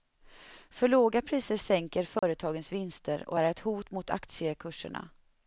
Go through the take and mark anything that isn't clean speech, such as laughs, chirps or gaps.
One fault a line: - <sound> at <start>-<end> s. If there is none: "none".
- dropout at 2.2-2.2 s